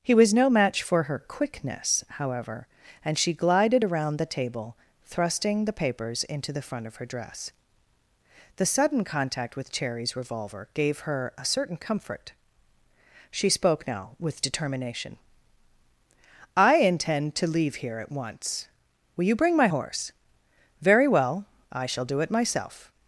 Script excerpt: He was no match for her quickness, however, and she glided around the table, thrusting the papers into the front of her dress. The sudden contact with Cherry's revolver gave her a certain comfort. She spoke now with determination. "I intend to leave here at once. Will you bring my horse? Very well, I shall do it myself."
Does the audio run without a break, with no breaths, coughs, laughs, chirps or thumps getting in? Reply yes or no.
yes